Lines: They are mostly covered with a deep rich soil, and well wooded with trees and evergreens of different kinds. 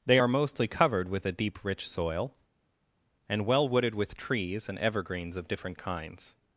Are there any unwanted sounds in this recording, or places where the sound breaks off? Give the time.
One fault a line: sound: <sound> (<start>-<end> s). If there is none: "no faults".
no faults